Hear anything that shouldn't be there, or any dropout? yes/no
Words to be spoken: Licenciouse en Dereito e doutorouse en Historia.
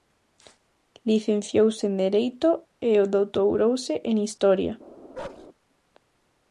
yes